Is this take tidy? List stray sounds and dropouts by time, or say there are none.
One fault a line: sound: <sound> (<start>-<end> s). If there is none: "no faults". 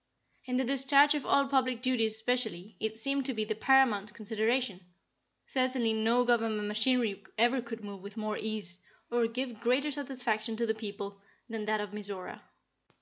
no faults